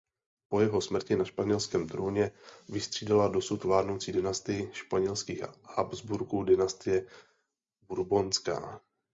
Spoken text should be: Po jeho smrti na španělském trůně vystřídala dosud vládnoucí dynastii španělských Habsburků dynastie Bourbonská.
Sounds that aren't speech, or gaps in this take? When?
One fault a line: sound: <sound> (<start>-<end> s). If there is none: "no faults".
no faults